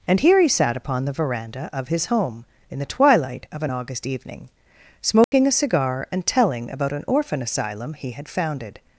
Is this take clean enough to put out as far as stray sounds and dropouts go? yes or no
no